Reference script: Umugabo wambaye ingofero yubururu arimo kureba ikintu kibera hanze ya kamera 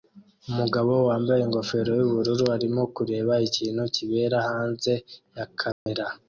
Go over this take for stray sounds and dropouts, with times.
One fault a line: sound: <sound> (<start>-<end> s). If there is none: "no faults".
sound: dropout (5.7-5.9 s)